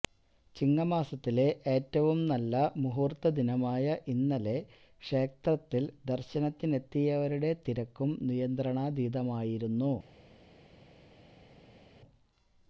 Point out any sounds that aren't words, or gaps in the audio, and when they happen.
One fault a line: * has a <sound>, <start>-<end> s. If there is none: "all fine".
all fine